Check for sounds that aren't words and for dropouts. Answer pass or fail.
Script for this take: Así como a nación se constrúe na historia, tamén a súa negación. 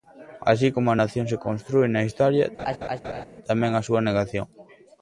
fail